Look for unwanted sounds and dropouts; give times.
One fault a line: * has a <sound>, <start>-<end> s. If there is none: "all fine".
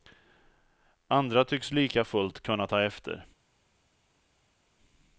all fine